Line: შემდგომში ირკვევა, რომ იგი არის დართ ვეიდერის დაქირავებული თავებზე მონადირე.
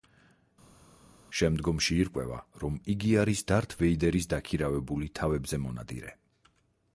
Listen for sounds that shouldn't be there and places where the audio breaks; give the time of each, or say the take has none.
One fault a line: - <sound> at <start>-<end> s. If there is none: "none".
none